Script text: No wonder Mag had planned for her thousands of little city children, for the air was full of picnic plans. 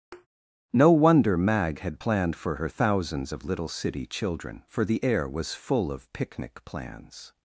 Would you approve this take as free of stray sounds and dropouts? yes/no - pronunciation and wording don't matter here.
no